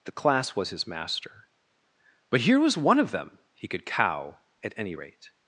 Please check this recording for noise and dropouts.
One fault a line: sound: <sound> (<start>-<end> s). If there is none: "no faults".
no faults